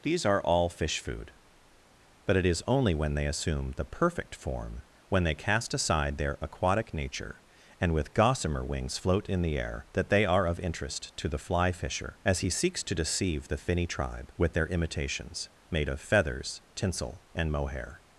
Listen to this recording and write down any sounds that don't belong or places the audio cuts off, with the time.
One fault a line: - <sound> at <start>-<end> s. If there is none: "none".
none